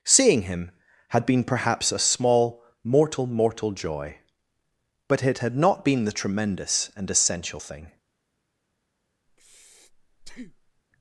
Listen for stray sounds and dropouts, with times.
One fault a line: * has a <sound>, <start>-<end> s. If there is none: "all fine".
* has a breath, 9.3-10.8 s